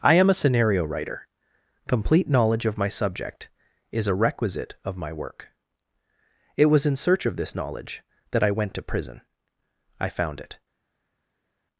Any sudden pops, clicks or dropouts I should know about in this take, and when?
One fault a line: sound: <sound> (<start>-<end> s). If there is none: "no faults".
no faults